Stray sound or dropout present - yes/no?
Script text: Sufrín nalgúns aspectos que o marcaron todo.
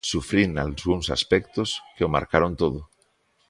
no